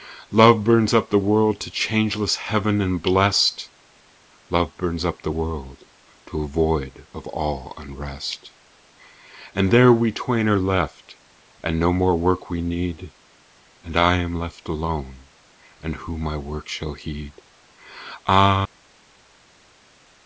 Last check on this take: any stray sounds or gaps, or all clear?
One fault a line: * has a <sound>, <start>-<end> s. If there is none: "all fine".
all fine